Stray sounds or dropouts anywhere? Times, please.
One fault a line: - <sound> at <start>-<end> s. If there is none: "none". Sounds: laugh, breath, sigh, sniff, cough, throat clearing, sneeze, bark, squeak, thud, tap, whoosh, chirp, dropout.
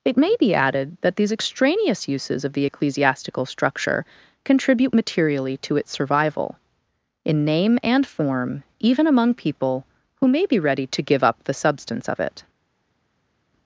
none